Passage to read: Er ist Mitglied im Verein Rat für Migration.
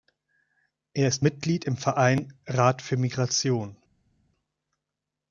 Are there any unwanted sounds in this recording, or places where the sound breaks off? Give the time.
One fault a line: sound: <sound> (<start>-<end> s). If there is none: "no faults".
no faults